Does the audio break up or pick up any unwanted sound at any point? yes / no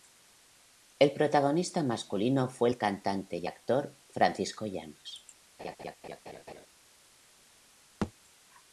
yes